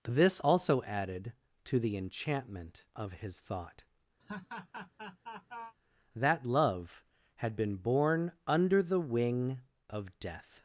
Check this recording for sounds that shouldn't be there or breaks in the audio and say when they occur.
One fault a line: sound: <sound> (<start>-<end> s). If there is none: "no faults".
sound: laugh (4.2-5.8 s)